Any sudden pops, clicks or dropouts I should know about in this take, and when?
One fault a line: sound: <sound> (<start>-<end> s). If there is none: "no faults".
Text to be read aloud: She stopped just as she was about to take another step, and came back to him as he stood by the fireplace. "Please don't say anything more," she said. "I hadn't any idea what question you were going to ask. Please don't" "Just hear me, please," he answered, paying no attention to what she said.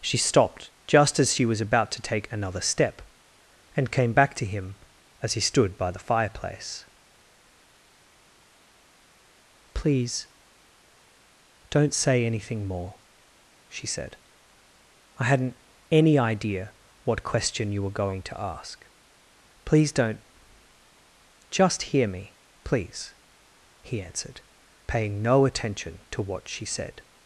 no faults